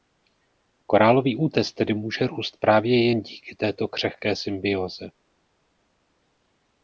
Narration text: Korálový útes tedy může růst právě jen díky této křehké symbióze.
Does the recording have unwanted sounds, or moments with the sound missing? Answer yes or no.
no